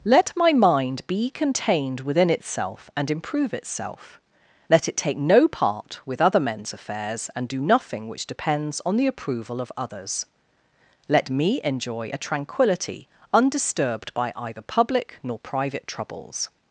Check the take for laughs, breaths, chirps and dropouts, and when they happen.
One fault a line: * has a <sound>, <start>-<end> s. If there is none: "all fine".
all fine